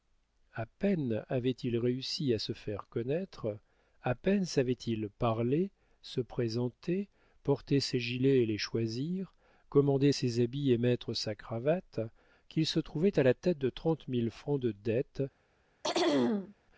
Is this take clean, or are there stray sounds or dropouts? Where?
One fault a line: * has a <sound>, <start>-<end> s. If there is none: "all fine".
* has a throat clearing, 15.8-16.5 s